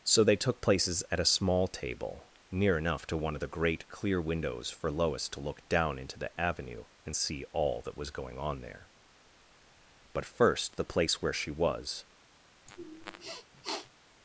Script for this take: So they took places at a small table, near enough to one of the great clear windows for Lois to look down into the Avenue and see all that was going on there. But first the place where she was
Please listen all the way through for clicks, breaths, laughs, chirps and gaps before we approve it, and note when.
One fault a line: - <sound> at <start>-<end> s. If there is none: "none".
- sniff at 12.7-13.9 s